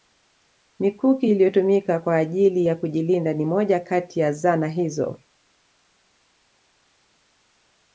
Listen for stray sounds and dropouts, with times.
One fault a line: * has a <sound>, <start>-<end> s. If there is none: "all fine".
all fine